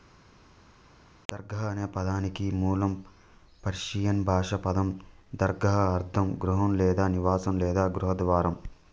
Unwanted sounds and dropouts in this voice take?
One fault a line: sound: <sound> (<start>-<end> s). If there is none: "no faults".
no faults